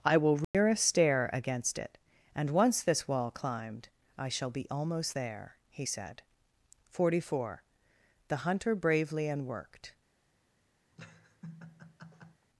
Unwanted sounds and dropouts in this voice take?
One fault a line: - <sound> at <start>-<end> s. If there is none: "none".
- dropout at 0.4-0.5 s
- laugh at 10.9-12.5 s